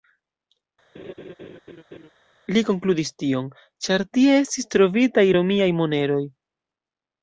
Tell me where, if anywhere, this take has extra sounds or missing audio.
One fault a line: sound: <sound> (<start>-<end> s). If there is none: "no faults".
sound: laugh (0.9-2.1 s)